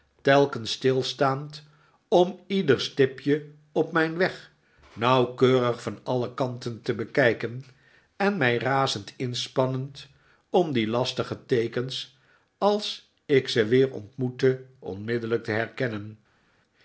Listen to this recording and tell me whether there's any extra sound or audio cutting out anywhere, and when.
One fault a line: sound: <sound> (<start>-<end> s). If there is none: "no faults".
no faults